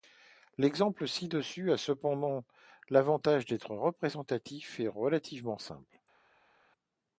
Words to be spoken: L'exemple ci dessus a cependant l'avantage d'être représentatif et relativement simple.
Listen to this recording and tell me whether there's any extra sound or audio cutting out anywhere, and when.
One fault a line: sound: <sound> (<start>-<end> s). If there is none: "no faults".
no faults